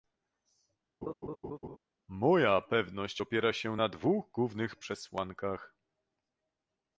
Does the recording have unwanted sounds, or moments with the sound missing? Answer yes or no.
yes